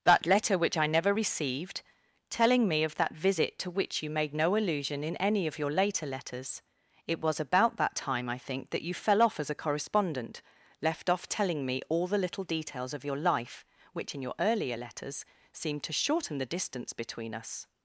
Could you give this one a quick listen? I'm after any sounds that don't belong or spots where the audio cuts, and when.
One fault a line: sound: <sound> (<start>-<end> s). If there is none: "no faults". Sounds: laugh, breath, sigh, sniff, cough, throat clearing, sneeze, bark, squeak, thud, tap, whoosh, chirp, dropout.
no faults